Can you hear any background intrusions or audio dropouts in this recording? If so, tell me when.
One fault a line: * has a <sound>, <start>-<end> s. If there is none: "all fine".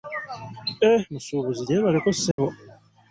* has a dropout, 2.3-2.4 s